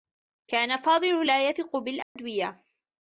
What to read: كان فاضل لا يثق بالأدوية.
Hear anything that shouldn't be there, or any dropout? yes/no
yes